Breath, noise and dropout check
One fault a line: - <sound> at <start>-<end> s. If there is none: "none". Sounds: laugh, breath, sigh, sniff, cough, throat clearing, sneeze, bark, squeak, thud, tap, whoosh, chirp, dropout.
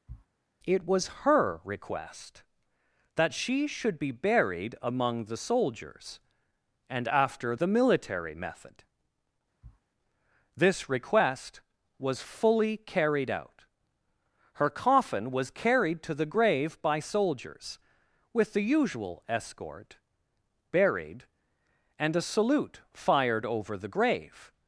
- sniff at 0.1-0.3 s
- sniff at 9.6-9.8 s